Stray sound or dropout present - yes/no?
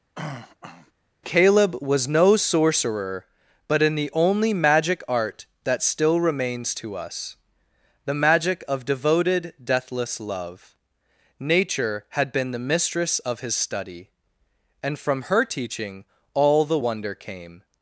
yes